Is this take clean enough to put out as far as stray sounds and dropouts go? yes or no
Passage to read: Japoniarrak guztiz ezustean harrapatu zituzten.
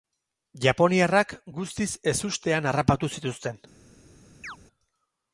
no